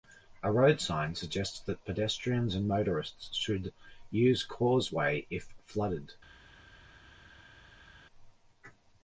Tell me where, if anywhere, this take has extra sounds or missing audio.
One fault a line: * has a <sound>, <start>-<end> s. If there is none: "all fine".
all fine